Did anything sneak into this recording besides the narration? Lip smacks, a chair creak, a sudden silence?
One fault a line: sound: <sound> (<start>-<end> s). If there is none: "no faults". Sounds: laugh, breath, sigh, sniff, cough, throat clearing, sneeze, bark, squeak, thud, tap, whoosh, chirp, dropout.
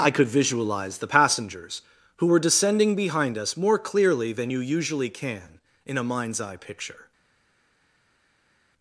no faults